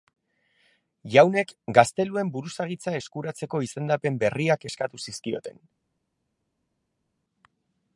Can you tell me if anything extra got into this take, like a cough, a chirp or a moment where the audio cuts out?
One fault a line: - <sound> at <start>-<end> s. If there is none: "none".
none